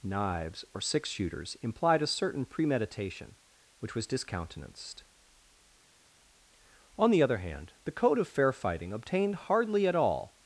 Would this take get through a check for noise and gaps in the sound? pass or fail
pass